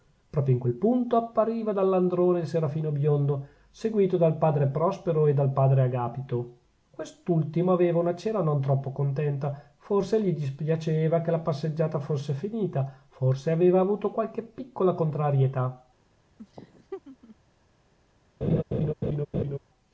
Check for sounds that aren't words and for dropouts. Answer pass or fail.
fail